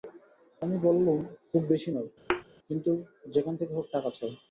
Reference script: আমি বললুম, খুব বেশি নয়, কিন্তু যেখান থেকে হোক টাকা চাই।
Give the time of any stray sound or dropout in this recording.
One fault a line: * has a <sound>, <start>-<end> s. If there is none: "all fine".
* has a thud, 2.3-2.4 s